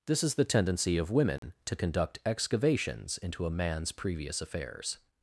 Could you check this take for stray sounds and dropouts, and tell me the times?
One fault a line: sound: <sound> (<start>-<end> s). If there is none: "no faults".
sound: dropout (1.4-1.4 s)